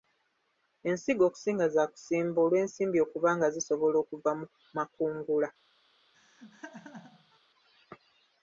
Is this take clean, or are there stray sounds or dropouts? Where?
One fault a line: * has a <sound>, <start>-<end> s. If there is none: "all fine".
* has a laugh, 6.1-7.4 s